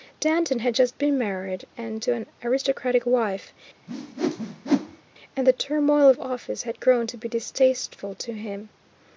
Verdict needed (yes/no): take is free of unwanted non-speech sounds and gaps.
no